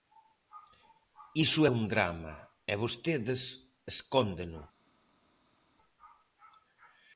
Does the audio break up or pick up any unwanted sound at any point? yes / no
no